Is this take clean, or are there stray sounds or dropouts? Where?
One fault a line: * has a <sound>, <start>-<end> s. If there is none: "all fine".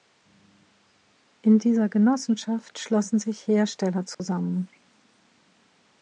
* has a dropout, 4.1-4.2 s